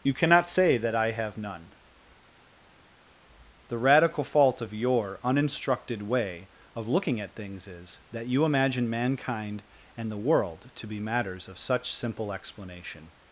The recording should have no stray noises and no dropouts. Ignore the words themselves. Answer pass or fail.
pass